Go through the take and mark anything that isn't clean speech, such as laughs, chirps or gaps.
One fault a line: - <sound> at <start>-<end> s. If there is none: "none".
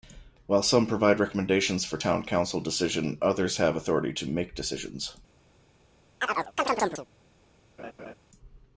- chirp at 6.2-7.1 s
- laugh at 7.8-8.1 s